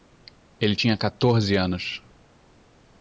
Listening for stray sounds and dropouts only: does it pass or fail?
pass